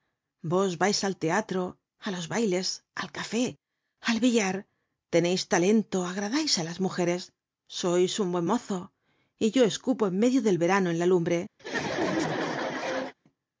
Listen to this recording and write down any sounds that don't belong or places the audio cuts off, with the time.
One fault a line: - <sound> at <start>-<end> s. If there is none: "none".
- laugh at 11.6-13.1 s